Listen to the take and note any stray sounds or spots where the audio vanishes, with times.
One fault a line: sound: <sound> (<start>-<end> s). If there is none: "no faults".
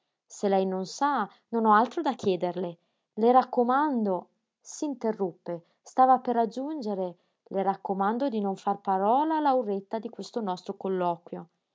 no faults